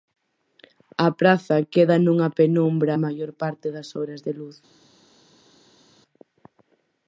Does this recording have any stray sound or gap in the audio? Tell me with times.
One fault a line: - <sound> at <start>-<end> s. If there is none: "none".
none